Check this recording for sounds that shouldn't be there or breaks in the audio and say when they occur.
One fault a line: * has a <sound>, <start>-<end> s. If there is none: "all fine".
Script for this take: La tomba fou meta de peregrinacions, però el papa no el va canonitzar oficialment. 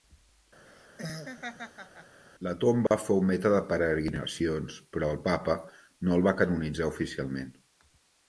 * has a laugh, 0.6-2.2 s
* has a dropout, 2.9-2.9 s